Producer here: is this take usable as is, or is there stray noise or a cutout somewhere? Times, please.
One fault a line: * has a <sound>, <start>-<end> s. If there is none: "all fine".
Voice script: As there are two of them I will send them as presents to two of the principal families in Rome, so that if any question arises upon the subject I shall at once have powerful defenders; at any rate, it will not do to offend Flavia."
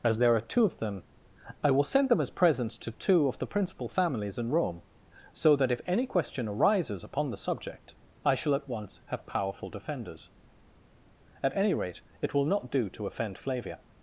all fine